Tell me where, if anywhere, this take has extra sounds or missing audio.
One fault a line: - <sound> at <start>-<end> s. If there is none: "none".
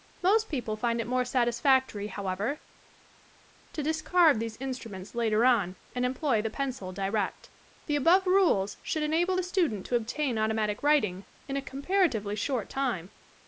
none